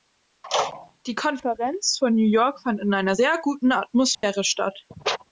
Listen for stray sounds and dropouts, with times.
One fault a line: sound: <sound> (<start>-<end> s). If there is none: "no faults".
sound: dropout (4.1-4.2 s)